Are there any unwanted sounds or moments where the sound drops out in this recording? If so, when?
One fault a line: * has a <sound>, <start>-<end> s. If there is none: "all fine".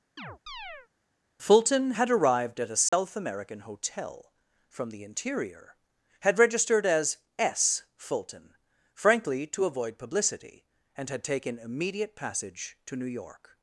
* has a chirp, 0.2-0.9 s
* has a dropout, 2.9-2.9 s